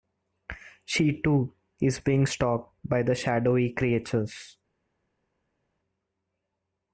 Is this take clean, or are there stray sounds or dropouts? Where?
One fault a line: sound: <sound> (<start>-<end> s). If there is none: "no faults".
no faults